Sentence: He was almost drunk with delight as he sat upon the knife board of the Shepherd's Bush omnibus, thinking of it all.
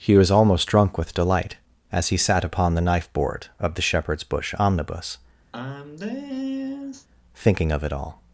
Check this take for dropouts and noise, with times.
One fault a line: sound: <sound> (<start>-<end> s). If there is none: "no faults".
sound: sigh (5.5-7.1 s)